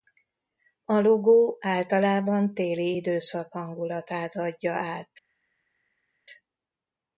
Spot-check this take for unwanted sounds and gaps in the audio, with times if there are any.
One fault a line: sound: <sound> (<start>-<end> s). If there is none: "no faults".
no faults